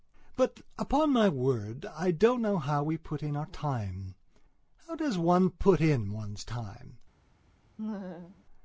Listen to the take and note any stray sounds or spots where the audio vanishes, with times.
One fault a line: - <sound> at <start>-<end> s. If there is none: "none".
- laugh at 7.8-8.4 s